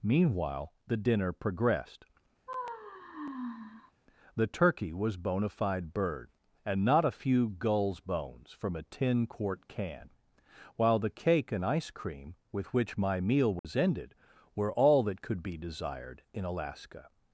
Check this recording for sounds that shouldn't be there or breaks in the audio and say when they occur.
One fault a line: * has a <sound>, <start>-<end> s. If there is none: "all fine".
* has a sigh, 2.5-3.9 s
* has a dropout, 13.6-13.6 s